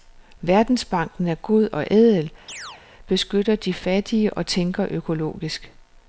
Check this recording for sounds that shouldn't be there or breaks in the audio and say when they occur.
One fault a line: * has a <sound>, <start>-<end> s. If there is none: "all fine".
* has a chirp, 2.5-2.8 s